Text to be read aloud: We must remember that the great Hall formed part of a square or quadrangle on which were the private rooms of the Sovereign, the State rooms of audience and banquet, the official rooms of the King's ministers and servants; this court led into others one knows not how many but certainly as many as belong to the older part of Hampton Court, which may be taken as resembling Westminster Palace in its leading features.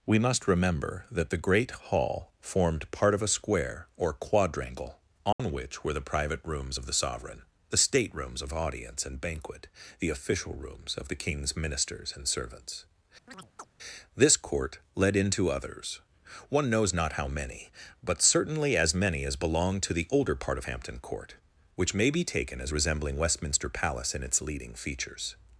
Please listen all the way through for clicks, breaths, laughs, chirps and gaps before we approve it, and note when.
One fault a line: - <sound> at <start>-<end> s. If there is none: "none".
- dropout at 5.3-5.4 s
- chirp at 13.3-13.7 s